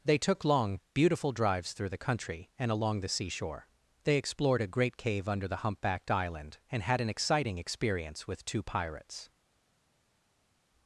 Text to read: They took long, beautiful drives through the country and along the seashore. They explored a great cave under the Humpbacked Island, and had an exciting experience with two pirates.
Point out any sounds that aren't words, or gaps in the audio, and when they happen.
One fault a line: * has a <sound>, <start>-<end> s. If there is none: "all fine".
all fine